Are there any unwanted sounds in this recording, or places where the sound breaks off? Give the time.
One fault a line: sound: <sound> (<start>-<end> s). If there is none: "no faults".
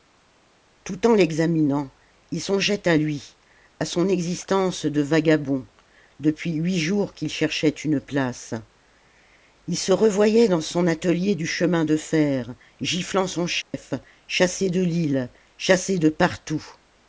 sound: dropout (13.6-13.7 s)